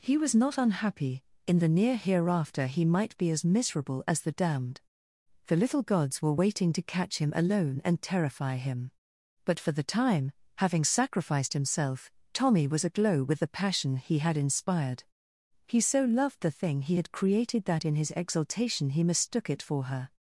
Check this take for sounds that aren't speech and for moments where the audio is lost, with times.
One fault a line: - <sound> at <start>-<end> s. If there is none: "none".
none